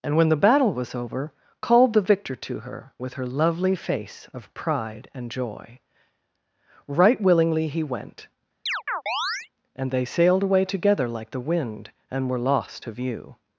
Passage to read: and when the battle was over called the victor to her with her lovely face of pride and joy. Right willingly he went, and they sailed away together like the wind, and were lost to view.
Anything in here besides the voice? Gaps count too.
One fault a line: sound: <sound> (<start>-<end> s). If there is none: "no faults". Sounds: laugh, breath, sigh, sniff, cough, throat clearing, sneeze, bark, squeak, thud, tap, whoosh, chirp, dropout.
sound: chirp (8.7-9.5 s)